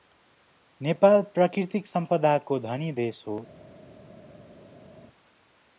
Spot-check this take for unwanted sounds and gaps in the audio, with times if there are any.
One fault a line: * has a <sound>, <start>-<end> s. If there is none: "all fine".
all fine